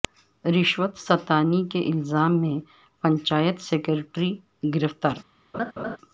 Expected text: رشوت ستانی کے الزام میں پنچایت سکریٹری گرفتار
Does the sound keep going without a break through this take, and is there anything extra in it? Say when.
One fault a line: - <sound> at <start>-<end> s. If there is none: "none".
- laugh at 5.5-6.0 s